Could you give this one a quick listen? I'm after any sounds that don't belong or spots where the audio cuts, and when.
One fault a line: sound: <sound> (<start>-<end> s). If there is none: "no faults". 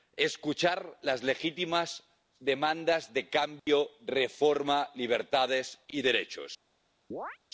sound: dropout (3.6-3.7 s)
sound: chirp (7.1-7.4 s)